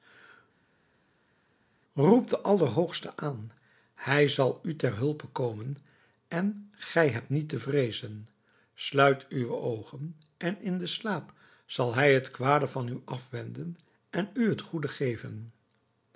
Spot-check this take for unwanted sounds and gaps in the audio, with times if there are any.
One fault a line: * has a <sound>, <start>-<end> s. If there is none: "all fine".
all fine